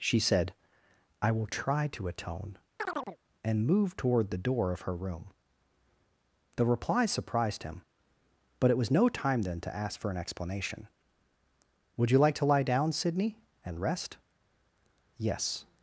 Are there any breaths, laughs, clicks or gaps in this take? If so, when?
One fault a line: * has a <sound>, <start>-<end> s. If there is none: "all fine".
* has a chirp, 2.8-3.2 s